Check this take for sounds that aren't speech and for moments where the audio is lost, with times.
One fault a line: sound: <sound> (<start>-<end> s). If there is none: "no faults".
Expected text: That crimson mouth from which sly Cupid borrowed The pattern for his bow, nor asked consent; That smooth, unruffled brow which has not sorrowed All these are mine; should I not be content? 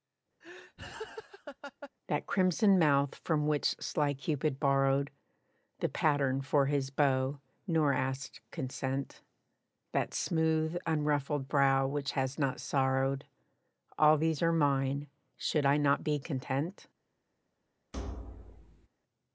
sound: laugh (0.4-1.9 s)
sound: thud (17.9-18.9 s)